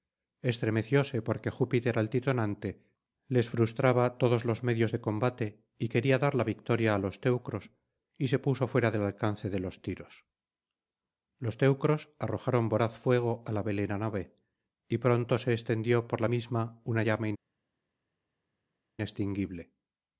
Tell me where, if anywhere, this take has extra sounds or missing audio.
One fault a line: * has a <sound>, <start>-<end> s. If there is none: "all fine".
all fine